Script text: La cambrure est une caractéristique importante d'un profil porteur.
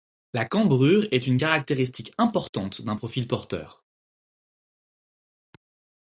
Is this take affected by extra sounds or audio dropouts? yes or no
no